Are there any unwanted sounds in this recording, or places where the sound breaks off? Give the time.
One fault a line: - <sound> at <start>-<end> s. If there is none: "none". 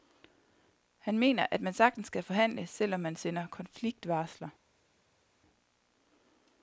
none